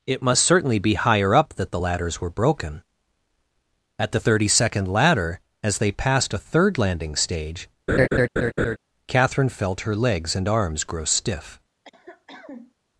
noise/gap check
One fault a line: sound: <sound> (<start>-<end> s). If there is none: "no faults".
sound: laugh (7.9-8.8 s)
sound: cough (11.8-12.7 s)